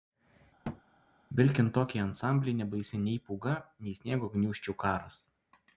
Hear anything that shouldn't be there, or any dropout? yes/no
yes